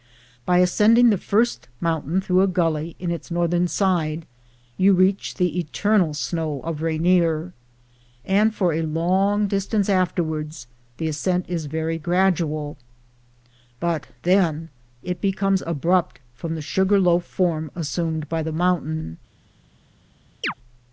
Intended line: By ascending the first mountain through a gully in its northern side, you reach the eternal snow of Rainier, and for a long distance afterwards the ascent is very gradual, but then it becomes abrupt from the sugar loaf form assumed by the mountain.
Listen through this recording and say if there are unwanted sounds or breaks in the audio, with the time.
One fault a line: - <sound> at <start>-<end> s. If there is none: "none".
- chirp at 20.4-20.5 s